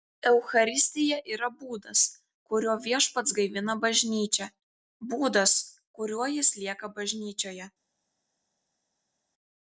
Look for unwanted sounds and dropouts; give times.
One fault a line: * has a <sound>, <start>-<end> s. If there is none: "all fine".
all fine